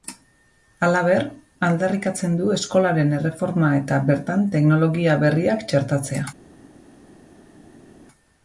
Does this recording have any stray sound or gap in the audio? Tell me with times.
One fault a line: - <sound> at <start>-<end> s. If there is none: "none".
none